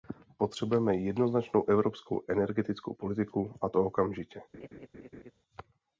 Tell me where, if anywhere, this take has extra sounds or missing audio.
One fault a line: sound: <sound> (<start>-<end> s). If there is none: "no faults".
sound: laugh (4.5-5.3 s)